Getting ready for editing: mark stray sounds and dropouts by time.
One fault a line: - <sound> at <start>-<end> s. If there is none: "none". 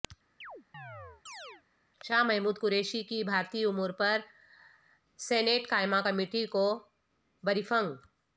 - chirp at 0.4-1.6 s